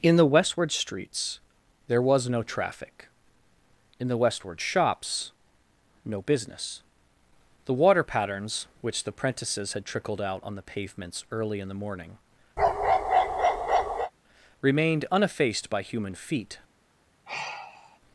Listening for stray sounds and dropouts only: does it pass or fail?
fail